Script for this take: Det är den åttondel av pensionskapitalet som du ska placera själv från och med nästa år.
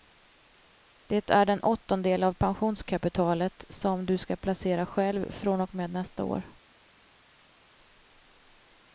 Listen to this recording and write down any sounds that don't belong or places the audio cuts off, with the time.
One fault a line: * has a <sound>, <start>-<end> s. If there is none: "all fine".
all fine